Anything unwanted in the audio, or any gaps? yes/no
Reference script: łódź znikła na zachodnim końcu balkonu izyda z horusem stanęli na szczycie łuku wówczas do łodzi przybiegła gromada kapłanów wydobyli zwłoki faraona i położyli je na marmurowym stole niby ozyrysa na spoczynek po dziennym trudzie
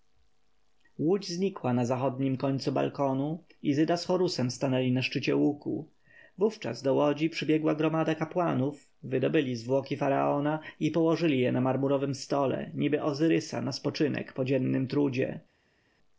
no